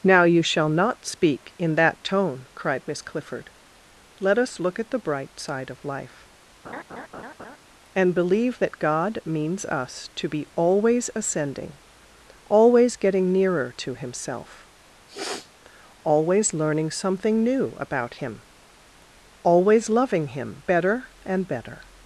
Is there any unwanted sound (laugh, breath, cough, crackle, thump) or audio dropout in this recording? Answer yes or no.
yes